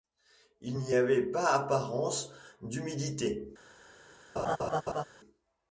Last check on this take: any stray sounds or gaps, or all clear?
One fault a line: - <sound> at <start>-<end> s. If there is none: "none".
- laugh at 4.4-5.0 s